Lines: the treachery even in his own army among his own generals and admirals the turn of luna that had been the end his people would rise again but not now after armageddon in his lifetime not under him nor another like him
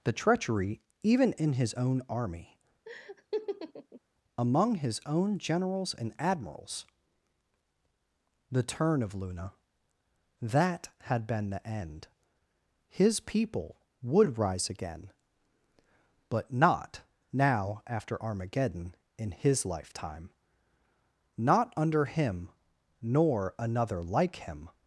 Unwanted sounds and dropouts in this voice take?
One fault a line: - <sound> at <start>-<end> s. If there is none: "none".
- laugh at 2.9-4.0 s